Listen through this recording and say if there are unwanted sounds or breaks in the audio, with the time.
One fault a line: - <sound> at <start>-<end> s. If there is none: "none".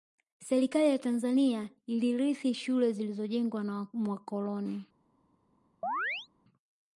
- chirp at 5.8-6.3 s